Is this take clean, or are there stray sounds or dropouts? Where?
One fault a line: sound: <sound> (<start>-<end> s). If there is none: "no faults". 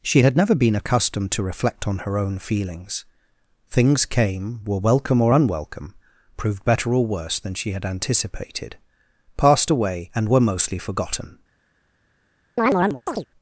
sound: chirp (12.6-13.3 s)